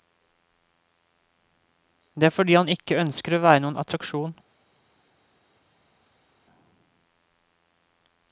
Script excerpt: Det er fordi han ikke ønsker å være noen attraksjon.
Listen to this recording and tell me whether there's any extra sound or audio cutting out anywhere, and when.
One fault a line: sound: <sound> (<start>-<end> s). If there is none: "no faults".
no faults